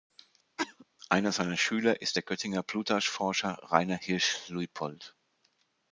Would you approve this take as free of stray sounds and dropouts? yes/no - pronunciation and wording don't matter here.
no